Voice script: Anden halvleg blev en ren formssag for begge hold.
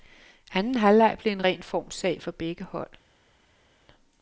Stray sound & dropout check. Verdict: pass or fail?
pass